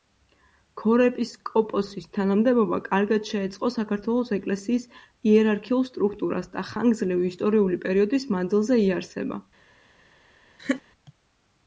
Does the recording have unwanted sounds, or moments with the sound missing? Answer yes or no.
yes